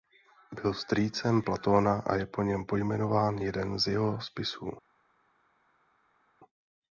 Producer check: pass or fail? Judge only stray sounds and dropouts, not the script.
pass